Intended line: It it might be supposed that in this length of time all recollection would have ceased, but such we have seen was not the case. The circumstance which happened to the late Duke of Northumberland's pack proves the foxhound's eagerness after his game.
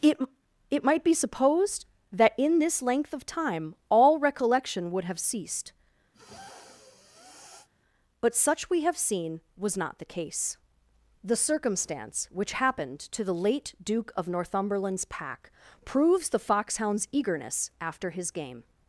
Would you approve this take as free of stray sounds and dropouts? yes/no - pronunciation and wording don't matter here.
no